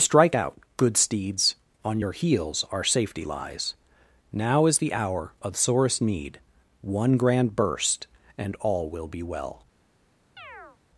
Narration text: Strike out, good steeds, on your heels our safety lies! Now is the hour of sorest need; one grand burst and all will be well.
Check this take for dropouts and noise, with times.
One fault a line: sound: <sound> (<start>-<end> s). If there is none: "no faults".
sound: chirp (10.4-10.8 s)